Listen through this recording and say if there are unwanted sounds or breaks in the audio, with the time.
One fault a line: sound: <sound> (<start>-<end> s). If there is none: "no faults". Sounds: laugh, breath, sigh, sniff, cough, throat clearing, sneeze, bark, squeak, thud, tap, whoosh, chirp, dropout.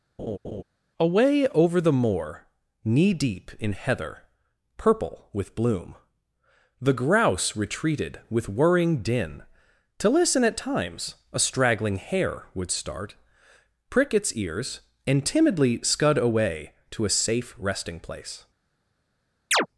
sound: laugh (0.2-0.6 s)
sound: chirp (19.5-19.7 s)